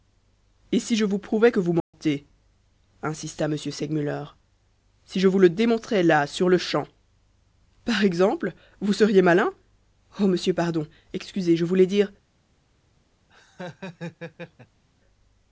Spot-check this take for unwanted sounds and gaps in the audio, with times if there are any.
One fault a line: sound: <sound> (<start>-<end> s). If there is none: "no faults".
sound: dropout (1.8-1.9 s)
sound: laugh (13.3-14.8 s)